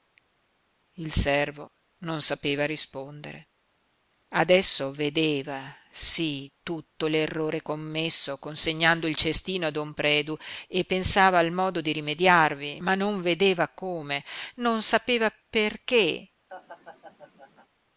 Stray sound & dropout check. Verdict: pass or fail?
fail